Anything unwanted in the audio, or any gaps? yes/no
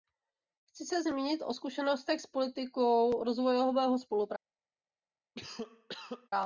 yes